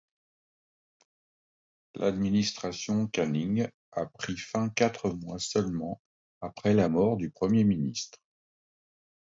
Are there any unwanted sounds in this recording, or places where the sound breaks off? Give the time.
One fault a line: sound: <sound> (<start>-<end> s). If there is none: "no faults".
no faults